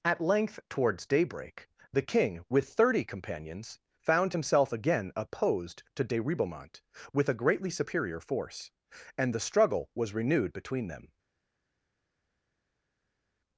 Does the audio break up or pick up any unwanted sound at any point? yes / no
no